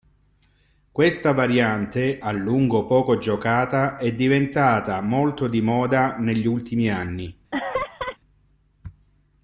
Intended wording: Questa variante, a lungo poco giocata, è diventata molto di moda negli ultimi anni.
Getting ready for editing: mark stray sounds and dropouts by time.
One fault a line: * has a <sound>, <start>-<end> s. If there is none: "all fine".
* has a laugh, 7.5-8.2 s